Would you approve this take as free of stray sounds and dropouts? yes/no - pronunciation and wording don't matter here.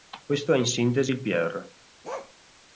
no